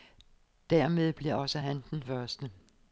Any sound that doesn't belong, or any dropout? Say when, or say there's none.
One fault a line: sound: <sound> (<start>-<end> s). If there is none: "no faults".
no faults